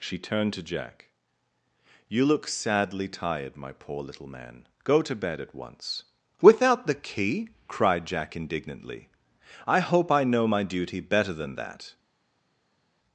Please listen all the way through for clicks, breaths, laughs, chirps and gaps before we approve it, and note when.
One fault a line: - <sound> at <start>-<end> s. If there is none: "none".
none